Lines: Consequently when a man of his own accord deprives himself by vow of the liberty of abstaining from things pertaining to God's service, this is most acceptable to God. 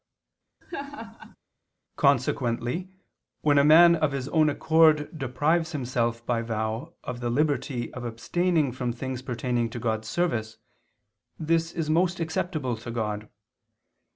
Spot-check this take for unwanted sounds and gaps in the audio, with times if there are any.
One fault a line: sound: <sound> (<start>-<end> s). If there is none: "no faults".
sound: laugh (0.6-1.4 s)